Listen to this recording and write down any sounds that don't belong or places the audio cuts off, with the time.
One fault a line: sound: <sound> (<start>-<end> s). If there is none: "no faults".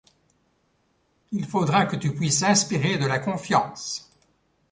no faults